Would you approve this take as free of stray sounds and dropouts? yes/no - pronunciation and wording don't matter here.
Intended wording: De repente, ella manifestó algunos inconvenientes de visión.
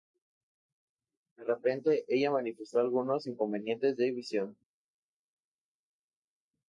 yes